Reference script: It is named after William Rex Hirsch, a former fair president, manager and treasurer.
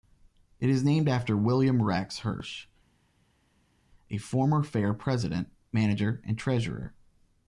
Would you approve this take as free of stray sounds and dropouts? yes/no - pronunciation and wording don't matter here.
yes